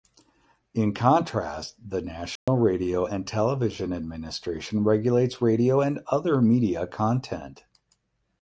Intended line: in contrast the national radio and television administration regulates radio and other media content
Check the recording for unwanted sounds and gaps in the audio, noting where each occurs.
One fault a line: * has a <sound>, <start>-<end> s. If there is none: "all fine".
* has a dropout, 2.4-2.5 s